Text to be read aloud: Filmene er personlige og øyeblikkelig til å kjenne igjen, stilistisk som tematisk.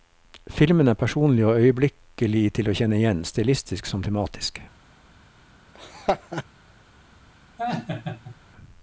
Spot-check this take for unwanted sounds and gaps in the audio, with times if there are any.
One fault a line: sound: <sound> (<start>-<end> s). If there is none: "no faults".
sound: laugh (5.7-6.4 s)
sound: laugh (7.6-8.4 s)